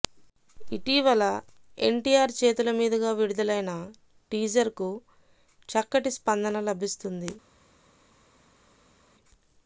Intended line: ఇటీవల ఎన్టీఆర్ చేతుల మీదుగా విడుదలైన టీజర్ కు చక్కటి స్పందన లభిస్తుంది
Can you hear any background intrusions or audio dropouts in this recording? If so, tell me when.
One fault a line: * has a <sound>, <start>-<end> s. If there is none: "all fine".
all fine